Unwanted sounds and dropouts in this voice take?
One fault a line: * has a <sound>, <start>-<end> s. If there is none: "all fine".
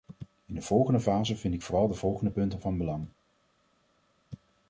all fine